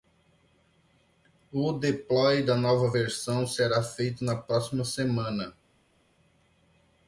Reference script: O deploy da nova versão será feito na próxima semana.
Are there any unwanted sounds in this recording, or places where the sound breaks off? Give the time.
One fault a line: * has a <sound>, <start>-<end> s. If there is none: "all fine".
all fine